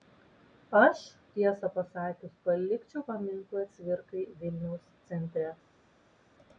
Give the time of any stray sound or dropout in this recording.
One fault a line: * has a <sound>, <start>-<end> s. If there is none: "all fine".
all fine